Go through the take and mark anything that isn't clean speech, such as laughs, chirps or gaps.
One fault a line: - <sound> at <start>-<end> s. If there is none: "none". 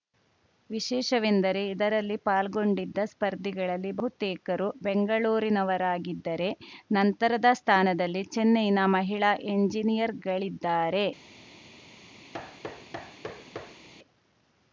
- thud at 12.3-13.9 s